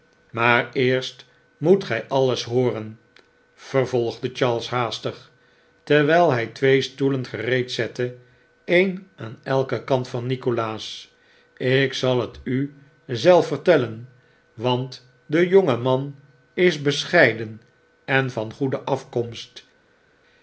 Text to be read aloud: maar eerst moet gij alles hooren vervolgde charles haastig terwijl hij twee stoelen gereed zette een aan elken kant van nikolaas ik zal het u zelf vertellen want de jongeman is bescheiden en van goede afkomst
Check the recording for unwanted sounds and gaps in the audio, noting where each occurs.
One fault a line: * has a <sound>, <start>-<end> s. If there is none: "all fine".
all fine